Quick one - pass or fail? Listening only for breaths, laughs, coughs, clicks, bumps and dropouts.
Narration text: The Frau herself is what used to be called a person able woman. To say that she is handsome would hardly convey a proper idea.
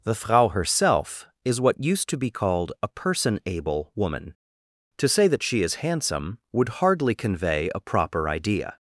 pass